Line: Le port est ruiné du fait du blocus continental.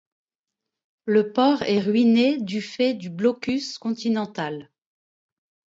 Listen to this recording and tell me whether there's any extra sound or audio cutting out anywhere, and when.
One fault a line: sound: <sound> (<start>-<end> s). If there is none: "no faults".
no faults